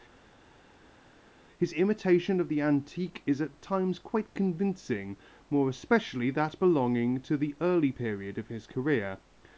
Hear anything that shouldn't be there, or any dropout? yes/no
no